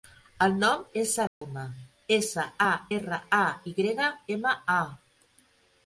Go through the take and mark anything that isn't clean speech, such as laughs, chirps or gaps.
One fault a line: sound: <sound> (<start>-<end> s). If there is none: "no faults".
sound: dropout (1.3-1.4 s)